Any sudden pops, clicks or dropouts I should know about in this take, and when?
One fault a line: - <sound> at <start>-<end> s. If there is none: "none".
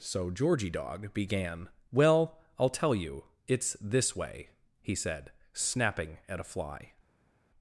none